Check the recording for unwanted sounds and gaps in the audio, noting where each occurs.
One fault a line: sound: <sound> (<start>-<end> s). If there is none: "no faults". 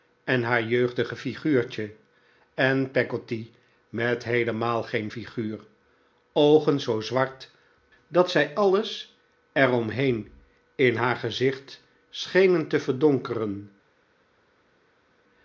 no faults